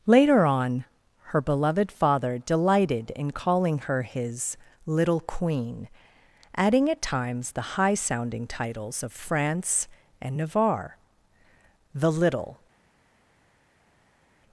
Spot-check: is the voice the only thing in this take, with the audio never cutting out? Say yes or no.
yes